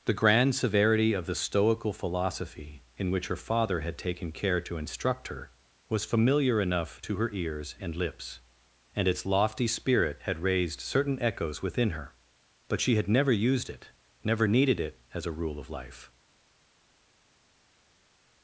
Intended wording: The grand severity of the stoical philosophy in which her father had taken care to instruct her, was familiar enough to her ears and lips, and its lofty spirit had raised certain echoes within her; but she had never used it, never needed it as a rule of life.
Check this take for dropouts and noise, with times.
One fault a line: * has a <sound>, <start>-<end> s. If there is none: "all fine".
all fine